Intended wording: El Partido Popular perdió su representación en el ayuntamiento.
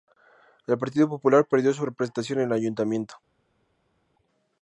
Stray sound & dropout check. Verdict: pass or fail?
pass